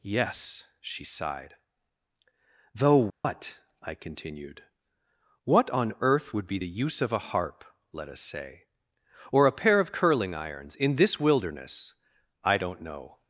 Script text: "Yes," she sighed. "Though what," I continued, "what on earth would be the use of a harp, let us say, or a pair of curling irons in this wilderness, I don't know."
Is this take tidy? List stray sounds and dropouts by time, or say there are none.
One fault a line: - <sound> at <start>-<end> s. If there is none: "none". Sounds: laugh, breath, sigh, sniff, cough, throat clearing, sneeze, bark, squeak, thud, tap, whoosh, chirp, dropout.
- dropout at 3.1-3.2 s